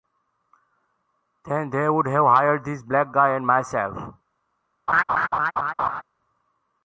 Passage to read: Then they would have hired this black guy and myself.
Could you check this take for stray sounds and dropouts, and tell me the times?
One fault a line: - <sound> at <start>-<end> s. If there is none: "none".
- laugh at 4.9-6.0 s